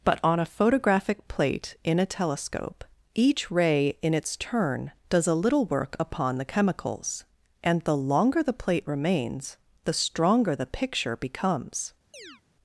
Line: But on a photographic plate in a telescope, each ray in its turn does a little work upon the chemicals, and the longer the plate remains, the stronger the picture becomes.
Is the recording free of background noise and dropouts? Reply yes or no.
no